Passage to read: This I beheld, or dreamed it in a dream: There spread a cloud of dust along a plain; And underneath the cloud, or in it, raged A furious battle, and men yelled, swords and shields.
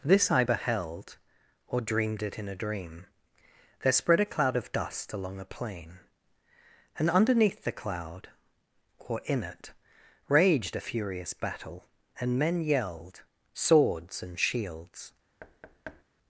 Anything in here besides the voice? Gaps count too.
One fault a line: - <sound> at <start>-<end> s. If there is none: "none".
- thud at 15.4-16.0 s